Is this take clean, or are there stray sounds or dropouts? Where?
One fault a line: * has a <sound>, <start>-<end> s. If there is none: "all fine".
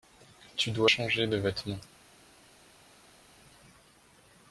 all fine